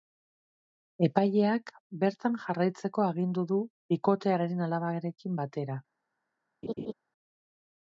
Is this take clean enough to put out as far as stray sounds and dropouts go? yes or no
no